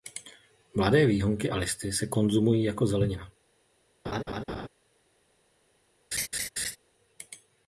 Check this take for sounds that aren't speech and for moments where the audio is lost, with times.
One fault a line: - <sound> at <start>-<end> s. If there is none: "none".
- laugh at 4.0-4.7 s
- laugh at 6.1-6.8 s